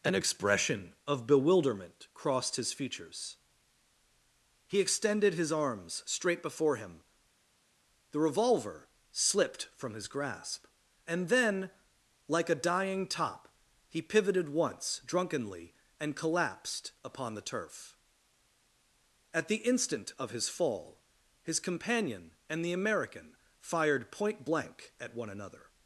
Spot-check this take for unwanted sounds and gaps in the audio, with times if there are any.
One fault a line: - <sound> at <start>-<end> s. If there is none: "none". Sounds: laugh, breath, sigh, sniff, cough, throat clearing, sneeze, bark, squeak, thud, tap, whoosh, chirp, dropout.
none